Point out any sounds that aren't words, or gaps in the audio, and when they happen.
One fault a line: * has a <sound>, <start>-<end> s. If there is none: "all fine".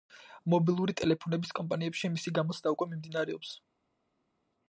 all fine